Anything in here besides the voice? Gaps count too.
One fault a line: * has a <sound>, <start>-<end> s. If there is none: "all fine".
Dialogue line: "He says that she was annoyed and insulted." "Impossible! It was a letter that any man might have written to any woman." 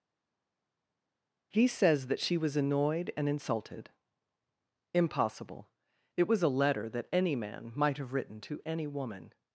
all fine